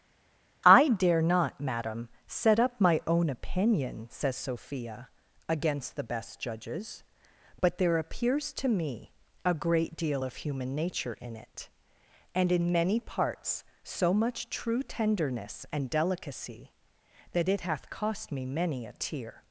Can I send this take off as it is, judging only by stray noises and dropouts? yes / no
yes